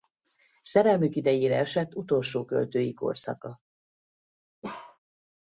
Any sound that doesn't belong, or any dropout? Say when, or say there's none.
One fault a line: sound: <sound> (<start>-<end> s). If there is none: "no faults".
sound: bark (4.6-5.0 s)